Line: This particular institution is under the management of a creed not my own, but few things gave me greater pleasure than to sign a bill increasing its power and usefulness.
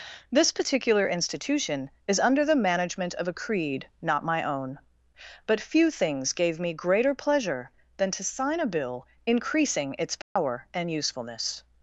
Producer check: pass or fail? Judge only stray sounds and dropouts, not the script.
fail